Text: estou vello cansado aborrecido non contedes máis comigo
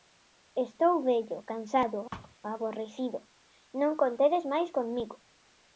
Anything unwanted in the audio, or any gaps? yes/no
yes